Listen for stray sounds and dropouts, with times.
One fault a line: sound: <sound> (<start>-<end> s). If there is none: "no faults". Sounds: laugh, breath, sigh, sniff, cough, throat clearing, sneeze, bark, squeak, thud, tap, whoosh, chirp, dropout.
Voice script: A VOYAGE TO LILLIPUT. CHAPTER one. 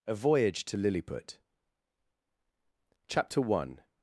no faults